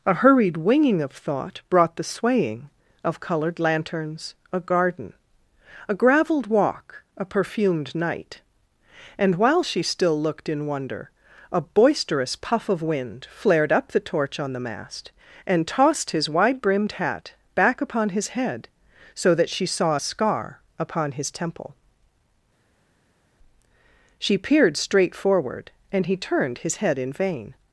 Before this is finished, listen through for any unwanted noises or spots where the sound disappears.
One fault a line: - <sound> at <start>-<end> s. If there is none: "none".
none